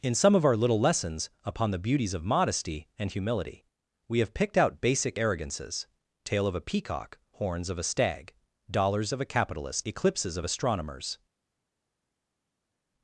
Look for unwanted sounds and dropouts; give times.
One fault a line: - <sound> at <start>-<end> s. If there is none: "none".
none